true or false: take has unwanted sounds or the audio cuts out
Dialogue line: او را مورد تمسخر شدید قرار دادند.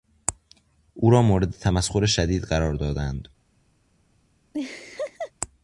true